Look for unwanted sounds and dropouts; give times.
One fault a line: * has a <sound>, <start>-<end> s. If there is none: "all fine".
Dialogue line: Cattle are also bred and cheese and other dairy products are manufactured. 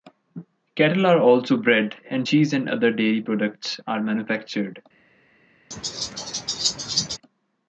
* has a laugh, 5.7-7.2 s